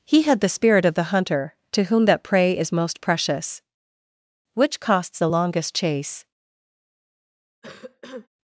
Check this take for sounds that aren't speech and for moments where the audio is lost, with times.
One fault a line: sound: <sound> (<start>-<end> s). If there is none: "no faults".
sound: cough (7.6-8.3 s)